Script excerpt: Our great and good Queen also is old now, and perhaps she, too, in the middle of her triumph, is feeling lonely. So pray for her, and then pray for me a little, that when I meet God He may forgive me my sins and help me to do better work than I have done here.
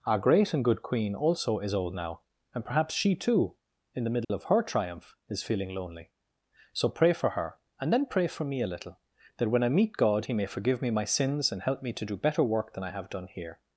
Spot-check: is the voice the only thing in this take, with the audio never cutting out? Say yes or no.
no